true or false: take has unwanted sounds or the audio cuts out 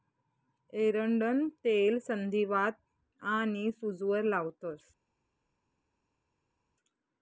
false